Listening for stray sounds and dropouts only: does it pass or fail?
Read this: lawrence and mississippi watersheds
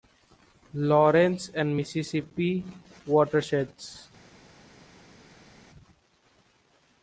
pass